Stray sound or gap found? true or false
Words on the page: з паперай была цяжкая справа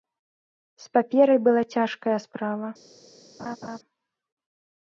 true